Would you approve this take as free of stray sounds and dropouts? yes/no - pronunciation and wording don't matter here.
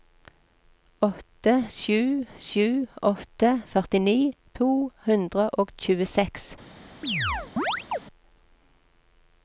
no